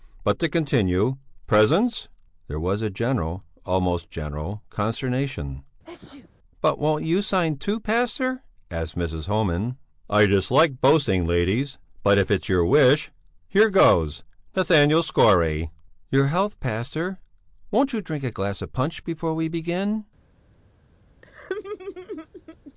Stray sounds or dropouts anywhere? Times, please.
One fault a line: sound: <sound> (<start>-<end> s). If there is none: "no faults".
sound: sneeze (5.8-6.3 s)
sound: laugh (21.2-22.7 s)